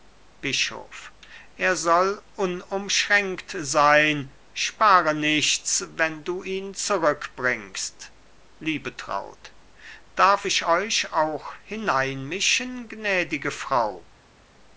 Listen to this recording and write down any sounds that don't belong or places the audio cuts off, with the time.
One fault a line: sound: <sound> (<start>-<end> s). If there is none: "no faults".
no faults